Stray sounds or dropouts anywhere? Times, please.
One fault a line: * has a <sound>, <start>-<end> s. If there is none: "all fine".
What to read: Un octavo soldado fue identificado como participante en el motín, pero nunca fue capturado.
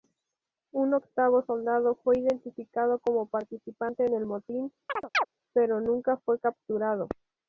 * has a chirp, 4.9-5.3 s